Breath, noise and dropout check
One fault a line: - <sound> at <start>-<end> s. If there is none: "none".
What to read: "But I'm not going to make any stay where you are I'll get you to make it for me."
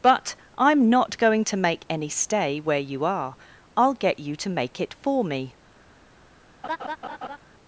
- laugh at 6.6-7.4 s